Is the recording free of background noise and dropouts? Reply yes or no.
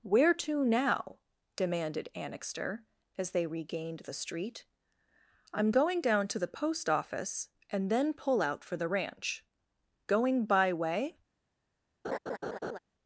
no